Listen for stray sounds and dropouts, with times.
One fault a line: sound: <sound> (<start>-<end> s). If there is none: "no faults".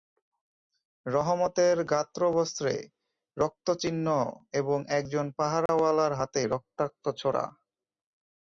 sound: dropout (5.7-5.7 s)